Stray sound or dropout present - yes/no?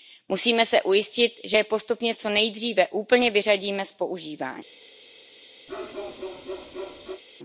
yes